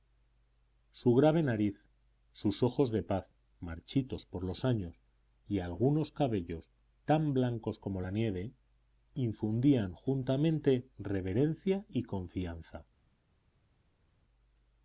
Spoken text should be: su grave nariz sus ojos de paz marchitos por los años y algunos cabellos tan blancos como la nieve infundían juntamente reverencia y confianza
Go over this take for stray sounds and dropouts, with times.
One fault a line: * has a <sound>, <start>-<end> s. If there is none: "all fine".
all fine